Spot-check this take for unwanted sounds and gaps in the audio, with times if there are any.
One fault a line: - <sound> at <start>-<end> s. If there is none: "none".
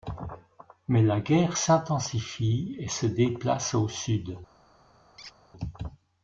- squeak at 5.2-5.4 s